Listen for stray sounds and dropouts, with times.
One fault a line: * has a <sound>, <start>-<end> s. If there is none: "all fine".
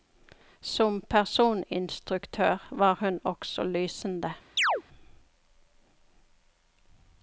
* has a chirp, 4.6-4.8 s